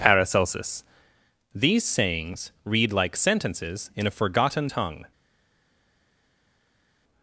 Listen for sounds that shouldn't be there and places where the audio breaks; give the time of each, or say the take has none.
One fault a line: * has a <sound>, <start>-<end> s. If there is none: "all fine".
all fine